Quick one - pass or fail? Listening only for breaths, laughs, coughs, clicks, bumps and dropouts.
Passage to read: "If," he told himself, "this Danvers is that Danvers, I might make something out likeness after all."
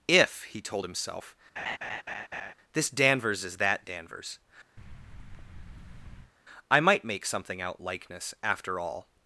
fail